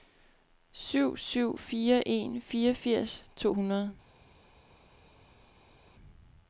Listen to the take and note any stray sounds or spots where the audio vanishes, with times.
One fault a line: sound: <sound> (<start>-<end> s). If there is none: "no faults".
no faults